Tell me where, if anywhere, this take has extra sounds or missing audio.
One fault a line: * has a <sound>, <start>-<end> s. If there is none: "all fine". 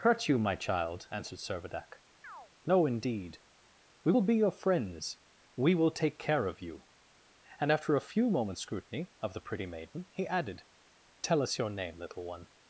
* has a chirp, 2.2-2.5 s